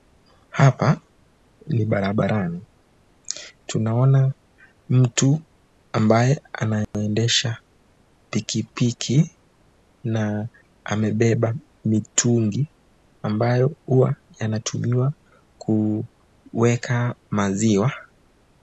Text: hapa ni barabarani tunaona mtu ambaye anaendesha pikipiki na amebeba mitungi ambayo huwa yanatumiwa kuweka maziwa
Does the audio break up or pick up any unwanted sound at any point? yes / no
yes